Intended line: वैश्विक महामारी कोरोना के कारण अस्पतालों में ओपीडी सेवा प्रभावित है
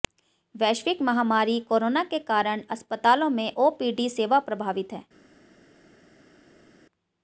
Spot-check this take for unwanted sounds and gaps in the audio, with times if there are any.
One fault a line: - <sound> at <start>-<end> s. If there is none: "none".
none